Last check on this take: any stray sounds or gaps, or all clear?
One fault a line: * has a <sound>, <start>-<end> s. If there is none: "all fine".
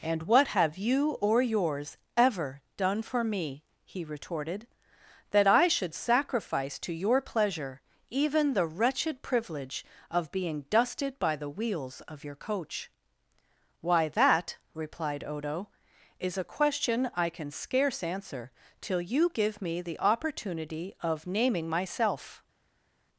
all fine